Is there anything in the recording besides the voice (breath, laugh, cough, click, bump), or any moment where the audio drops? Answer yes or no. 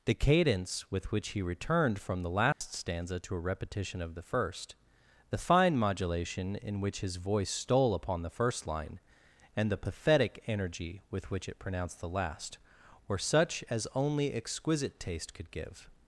yes